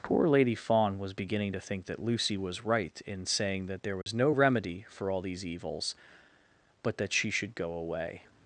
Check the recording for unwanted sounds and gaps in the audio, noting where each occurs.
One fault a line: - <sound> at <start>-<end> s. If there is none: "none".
- dropout at 4.0-4.1 s